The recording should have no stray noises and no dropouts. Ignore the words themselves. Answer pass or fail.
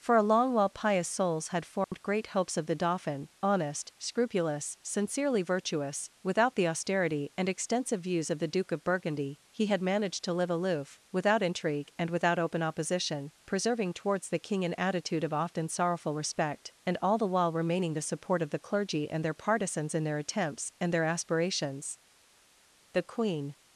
fail